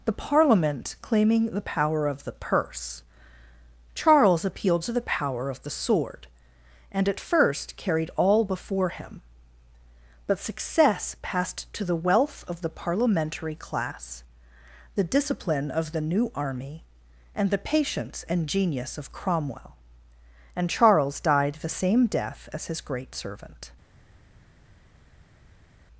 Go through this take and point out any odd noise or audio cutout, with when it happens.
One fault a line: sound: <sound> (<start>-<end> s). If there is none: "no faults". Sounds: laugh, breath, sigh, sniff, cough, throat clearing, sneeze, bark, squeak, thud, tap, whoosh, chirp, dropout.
no faults